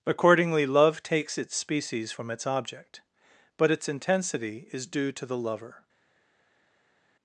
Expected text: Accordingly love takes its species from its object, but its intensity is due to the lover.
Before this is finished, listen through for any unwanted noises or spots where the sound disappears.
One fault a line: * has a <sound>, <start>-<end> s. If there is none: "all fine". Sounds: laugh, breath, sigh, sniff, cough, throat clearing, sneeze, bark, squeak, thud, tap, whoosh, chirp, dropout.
all fine